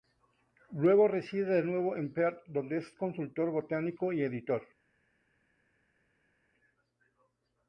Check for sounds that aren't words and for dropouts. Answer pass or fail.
pass